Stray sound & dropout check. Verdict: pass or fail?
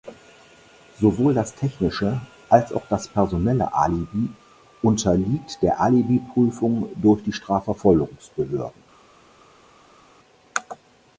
pass